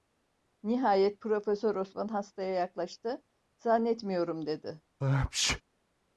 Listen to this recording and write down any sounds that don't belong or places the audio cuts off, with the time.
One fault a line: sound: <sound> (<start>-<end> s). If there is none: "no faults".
sound: sneeze (5.0-5.6 s)